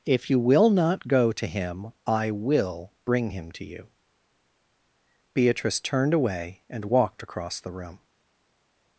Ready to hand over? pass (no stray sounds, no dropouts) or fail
pass